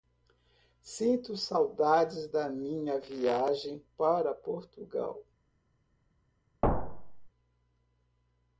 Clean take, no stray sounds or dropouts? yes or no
no